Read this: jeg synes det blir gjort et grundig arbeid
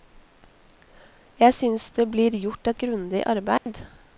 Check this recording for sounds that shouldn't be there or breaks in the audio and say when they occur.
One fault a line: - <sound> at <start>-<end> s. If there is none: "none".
- dropout at 3.6-3.7 s